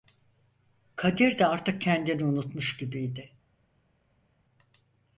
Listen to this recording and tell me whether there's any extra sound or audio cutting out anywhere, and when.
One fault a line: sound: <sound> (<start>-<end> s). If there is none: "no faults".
no faults